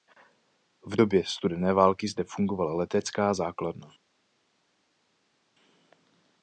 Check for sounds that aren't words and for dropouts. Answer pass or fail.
pass